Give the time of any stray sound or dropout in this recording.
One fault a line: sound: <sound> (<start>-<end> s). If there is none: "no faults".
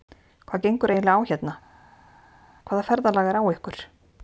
no faults